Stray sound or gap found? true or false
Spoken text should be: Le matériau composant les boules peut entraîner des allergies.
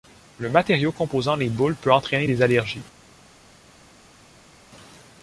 false